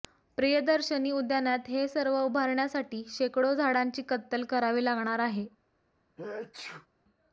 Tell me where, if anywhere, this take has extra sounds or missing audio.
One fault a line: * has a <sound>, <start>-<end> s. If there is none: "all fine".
* has a sneeze, 6.2-6.9 s